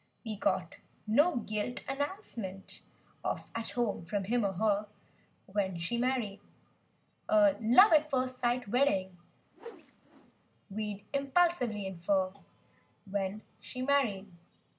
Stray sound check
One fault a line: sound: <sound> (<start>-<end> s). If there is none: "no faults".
sound: whoosh (9.5-10.3 s)